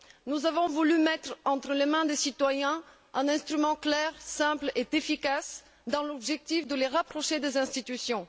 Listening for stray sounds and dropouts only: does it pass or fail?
pass